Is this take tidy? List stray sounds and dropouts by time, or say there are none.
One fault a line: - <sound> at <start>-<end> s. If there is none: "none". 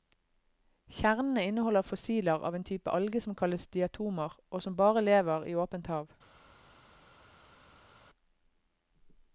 none